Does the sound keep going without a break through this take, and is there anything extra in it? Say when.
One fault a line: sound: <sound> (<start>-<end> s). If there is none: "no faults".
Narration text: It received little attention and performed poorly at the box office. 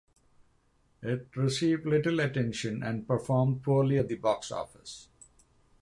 no faults